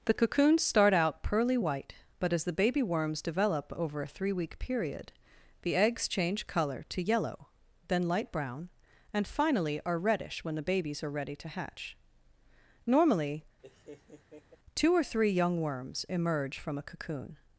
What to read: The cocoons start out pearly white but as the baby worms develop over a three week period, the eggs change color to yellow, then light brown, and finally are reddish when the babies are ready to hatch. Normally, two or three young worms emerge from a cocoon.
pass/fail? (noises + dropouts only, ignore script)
fail